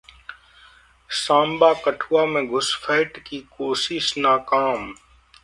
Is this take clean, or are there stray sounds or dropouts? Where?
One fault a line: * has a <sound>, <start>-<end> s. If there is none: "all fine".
all fine